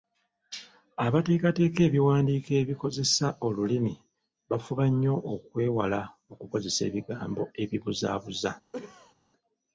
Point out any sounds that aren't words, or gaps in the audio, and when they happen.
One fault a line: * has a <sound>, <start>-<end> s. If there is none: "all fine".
* has a cough, 8.7-9.1 s